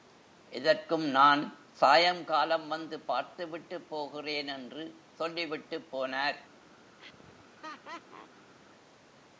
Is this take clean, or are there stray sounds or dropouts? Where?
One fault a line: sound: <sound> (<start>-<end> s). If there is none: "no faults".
sound: laugh (7.0-8.5 s)